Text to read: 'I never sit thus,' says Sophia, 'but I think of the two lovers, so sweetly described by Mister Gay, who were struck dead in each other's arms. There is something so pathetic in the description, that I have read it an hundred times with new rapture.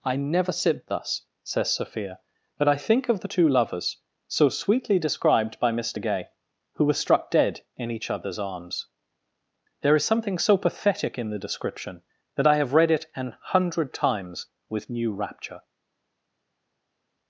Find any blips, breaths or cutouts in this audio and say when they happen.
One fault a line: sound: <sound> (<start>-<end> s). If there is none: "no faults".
no faults